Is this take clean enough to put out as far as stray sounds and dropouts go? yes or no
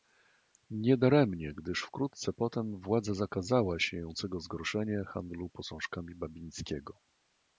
yes